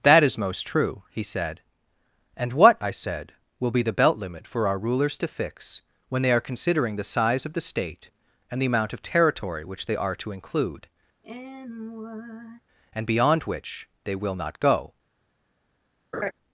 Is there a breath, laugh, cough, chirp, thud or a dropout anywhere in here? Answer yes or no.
yes